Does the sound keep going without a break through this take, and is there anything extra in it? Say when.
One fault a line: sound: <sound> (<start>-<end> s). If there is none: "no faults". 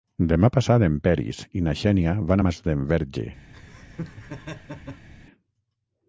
sound: laugh (3.5-5.1 s)